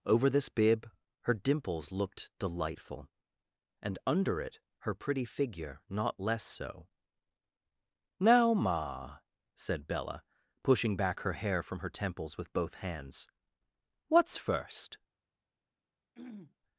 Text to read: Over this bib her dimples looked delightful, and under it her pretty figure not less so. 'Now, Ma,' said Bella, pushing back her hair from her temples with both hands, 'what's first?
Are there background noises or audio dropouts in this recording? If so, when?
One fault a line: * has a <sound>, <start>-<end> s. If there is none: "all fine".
* has a throat clearing, 16.1-16.6 s